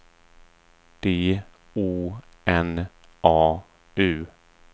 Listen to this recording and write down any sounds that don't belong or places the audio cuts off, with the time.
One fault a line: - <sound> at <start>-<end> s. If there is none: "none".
none